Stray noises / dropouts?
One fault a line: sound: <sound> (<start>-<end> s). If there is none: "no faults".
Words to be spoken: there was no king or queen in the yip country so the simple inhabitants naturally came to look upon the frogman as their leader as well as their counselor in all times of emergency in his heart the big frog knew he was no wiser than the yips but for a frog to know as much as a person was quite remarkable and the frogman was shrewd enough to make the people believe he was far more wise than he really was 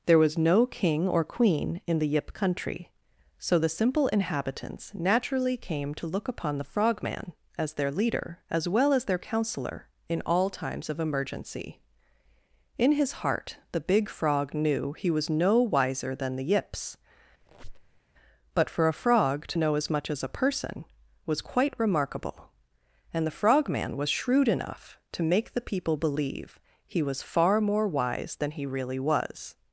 sound: squeak (17.4-18.0 s)